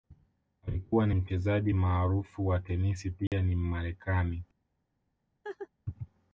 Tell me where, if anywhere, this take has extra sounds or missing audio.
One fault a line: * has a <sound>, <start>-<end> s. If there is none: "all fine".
* has a dropout, 3.3-3.3 s
* has a laugh, 5.4-5.7 s